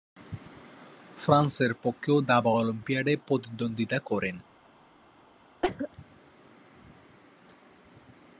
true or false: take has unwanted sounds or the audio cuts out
true